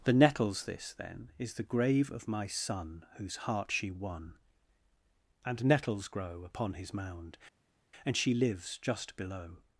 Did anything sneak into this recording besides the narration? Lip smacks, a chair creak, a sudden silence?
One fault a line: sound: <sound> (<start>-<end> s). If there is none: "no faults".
no faults